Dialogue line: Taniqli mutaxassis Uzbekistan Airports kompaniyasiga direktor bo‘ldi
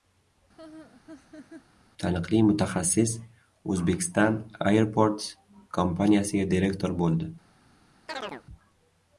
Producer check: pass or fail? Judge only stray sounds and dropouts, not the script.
fail